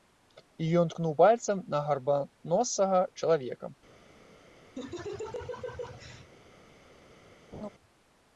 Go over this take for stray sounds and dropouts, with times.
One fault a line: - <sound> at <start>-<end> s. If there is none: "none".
- laugh at 4.8-6.3 s
- laugh at 7.5-7.7 s